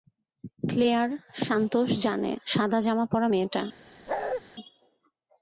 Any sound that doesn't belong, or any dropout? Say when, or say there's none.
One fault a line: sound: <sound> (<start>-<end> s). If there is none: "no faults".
sound: bark (4.1-4.4 s)